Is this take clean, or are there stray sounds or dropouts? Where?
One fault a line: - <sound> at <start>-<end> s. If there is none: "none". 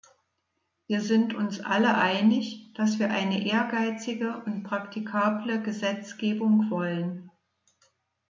none